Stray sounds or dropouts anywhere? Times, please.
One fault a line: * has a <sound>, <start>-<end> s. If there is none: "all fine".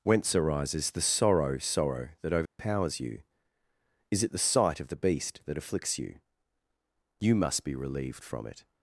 * has a dropout, 2.5-2.6 s